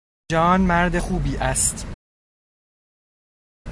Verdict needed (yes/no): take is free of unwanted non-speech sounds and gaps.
yes